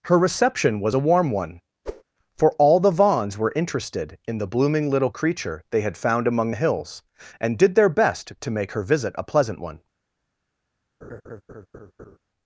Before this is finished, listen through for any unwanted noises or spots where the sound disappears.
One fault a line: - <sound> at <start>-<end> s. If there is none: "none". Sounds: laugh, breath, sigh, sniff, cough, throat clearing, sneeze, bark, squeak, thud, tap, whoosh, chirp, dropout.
- whoosh at 1.9-2.0 s
- laugh at 11.0-12.2 s